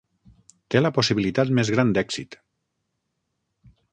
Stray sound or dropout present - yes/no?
no